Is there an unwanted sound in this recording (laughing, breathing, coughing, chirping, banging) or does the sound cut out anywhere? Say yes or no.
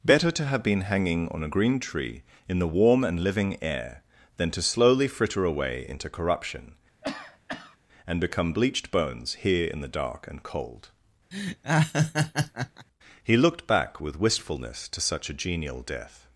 yes